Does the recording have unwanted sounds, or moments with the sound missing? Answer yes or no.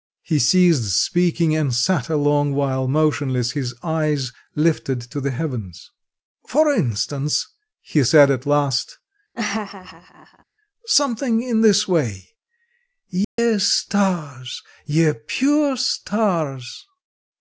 yes